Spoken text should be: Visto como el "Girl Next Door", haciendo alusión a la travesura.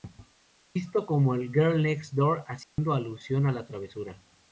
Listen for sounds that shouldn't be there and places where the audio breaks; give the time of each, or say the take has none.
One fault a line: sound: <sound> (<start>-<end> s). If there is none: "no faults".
sound: dropout (2.6-2.8 s)